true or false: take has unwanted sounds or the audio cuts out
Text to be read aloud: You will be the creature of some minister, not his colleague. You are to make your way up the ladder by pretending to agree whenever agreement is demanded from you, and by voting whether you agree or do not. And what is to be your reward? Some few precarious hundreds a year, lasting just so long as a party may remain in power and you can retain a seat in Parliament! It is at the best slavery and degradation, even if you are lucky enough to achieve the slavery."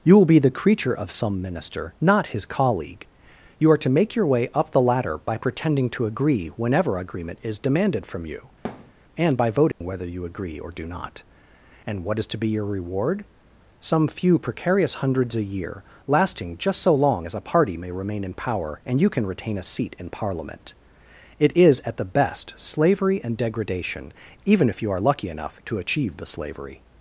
true